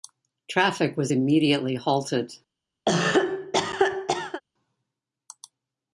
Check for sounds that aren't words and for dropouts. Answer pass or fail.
fail